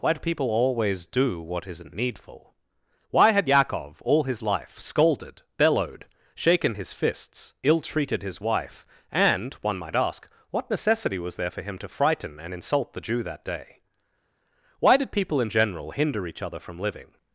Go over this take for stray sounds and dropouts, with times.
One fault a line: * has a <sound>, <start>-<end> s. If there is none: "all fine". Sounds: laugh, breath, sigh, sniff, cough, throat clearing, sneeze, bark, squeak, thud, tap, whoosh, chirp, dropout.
all fine